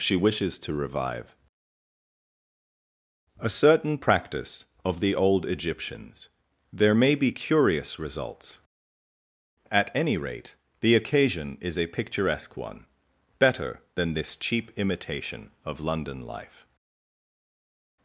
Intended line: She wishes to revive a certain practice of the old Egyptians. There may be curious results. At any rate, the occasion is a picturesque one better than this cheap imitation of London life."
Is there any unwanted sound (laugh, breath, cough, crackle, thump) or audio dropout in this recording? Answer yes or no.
no